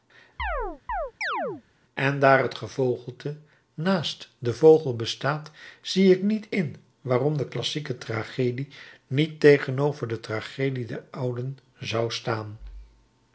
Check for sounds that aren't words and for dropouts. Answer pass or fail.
fail